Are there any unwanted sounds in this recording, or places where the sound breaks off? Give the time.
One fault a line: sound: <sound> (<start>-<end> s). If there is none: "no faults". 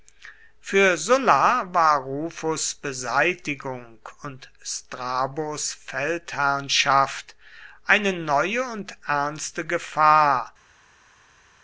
no faults